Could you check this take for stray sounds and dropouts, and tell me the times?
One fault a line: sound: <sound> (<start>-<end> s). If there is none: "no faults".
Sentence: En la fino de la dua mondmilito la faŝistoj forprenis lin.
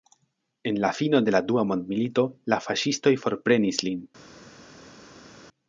no faults